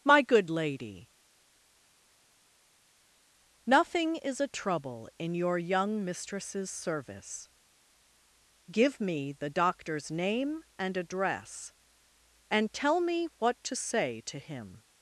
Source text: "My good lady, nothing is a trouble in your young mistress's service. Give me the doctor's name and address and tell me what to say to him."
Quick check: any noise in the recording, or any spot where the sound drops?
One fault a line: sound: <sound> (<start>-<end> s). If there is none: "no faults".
no faults